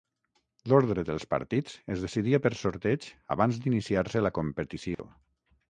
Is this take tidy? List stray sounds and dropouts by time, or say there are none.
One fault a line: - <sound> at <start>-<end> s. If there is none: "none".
- dropout at 4.9-5.0 s